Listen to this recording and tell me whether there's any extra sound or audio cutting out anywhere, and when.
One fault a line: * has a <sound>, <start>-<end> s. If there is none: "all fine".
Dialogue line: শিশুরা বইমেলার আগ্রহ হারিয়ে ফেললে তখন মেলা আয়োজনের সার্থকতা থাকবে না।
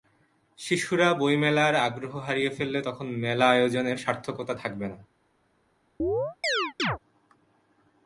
* has a chirp, 6.0-7.0 s